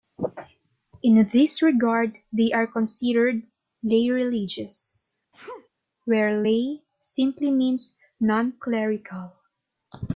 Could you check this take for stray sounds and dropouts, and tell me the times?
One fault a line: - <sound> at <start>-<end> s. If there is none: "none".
- sneeze at 5.3-5.7 s